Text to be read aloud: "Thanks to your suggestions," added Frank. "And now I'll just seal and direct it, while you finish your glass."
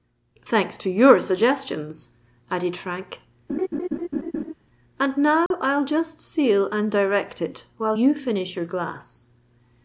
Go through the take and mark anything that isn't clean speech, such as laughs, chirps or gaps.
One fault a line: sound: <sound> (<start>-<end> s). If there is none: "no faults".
sound: laugh (3.5-4.5 s)
sound: dropout (5.5-5.5 s)